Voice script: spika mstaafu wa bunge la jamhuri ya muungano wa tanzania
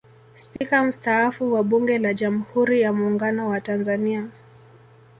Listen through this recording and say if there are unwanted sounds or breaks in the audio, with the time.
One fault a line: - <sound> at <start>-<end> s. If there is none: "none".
- dropout at 0.6-0.6 s